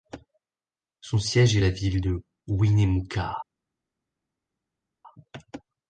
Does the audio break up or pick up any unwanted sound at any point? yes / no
no